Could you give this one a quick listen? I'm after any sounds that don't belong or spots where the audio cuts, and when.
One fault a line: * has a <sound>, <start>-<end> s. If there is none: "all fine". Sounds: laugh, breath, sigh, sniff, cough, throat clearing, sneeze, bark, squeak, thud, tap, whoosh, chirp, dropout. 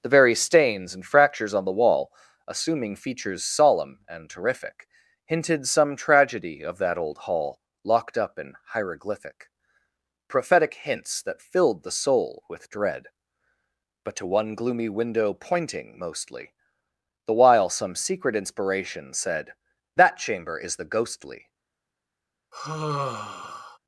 * has a sigh, 22.5-23.8 s